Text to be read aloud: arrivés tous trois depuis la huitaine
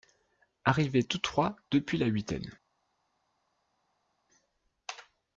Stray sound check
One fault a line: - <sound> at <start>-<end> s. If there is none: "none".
none